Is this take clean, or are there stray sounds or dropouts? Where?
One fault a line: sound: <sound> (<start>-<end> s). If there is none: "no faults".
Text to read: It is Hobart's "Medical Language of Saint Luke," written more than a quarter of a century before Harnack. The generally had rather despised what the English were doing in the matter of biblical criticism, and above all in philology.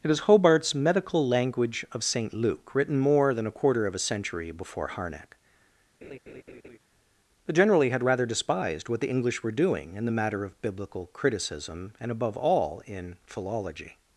sound: laugh (6.0-6.8 s)